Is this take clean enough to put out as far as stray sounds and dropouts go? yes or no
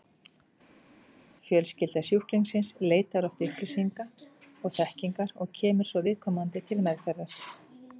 yes